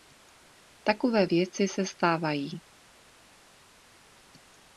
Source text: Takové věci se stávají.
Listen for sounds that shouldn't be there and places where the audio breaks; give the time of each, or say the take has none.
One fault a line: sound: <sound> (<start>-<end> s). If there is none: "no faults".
no faults